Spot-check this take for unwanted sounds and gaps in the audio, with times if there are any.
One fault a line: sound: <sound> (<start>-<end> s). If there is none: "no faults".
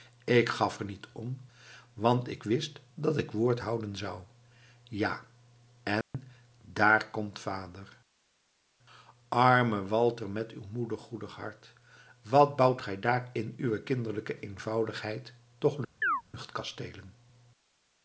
sound: dropout (6.0-6.1 s)
sound: chirp (16.0-16.2 s)